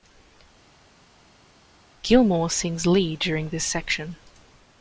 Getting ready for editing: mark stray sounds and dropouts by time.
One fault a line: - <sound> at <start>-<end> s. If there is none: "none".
none